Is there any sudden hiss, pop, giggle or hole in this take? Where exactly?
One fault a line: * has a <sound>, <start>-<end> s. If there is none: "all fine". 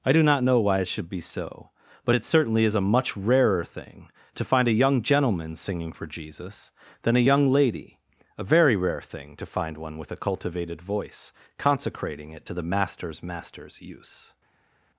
all fine